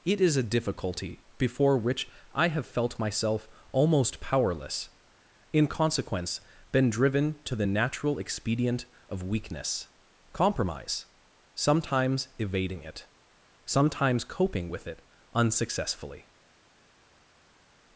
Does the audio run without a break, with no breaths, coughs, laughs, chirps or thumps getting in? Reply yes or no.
yes